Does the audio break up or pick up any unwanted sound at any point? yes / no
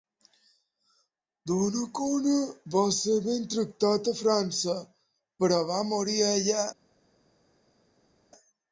no